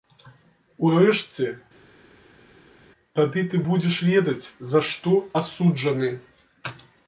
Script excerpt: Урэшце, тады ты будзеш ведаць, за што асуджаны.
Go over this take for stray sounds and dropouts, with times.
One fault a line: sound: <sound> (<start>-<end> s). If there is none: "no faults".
no faults